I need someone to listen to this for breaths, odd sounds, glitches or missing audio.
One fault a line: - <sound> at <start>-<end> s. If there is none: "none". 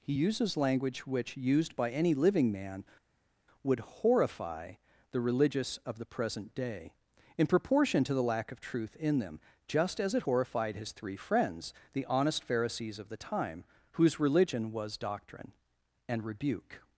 none